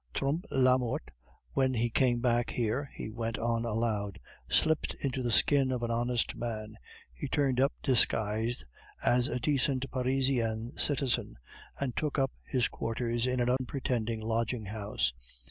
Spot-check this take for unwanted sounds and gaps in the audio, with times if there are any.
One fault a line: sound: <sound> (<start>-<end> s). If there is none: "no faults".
sound: dropout (13.6-13.6 s)